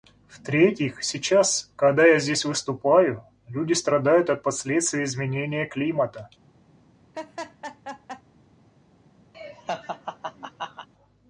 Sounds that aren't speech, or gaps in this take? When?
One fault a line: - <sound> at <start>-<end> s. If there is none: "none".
- laugh at 7.1-8.2 s
- laugh at 9.3-10.9 s